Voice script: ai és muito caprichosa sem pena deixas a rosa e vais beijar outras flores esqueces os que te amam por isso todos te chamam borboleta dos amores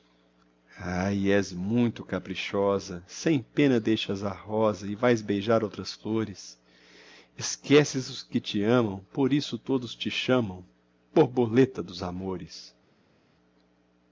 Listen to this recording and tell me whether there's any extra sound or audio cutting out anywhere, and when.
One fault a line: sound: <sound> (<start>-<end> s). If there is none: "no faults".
no faults